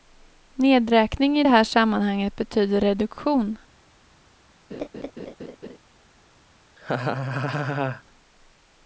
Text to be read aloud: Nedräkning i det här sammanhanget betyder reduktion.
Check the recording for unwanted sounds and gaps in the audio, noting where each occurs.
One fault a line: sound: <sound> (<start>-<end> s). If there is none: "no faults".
sound: laugh (4.7-5.8 s)
sound: laugh (6.8-8.0 s)